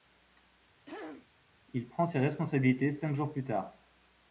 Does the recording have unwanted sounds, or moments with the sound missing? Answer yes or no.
yes